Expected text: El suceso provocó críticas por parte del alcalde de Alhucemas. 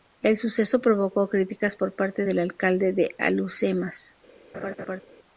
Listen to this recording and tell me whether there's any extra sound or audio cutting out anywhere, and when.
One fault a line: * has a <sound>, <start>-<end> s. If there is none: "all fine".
* has a laugh, 4.5-5.0 s